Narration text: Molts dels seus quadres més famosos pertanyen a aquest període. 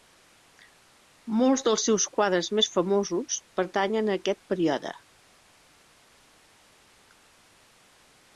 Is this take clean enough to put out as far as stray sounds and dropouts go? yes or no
yes